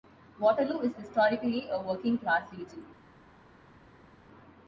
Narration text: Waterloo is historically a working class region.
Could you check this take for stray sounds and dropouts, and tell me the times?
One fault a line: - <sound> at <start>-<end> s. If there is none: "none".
none